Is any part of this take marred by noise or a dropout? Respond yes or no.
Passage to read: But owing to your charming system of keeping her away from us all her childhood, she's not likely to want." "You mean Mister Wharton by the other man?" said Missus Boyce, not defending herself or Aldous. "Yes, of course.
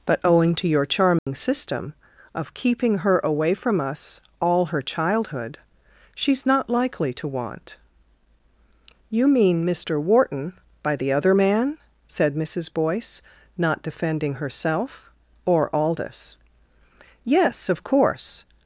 yes